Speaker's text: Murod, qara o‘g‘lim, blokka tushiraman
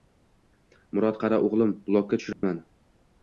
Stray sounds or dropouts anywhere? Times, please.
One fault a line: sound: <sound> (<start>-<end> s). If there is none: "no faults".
sound: dropout (2.3-2.4 s)